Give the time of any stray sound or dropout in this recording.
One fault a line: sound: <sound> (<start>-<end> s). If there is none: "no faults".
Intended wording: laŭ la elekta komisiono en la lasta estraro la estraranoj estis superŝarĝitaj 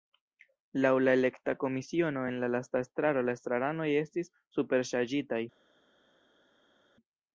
no faults